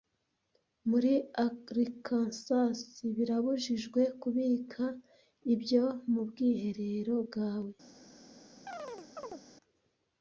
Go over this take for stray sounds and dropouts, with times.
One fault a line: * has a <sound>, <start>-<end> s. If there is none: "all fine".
* has a chirp, 8.7-9.4 s